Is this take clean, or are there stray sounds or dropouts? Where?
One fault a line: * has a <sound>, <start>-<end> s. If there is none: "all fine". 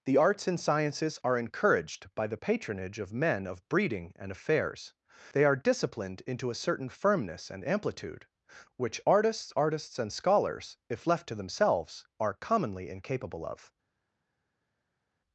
all fine